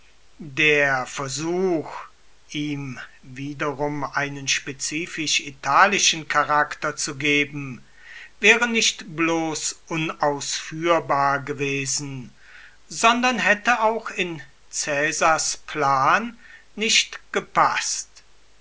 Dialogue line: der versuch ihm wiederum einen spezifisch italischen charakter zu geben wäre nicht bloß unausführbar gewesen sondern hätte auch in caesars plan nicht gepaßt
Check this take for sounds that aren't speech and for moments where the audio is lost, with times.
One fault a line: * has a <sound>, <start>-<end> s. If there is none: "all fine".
all fine